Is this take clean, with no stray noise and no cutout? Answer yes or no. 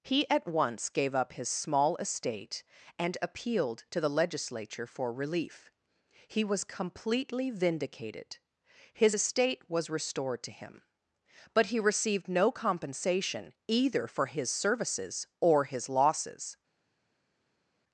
yes